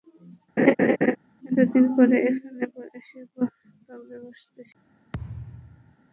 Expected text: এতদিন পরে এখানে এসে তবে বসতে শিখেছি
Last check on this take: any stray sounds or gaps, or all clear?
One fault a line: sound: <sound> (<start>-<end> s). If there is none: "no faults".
sound: laugh (0.6-1.2 s)
sound: thud (5.1-6.0 s)